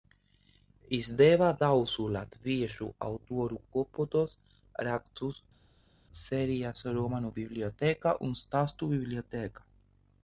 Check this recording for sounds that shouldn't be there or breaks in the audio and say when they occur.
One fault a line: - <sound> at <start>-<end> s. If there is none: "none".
none